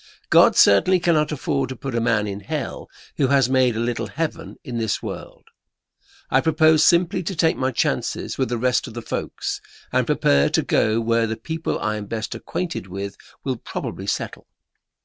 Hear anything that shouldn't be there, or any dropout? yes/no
no